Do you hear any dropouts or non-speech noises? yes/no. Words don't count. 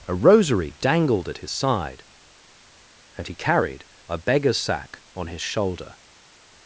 no